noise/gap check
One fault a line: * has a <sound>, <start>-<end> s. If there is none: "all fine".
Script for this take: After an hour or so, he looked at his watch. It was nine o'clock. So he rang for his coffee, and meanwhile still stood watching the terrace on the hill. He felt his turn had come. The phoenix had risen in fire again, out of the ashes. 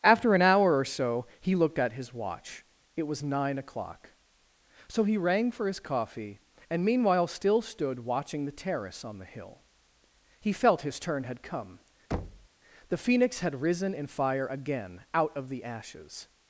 * has a thud, 12.1-12.5 s